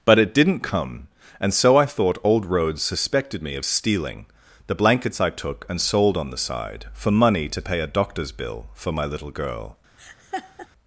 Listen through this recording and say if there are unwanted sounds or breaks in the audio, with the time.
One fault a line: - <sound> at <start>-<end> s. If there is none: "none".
- laugh at 10.0-10.7 s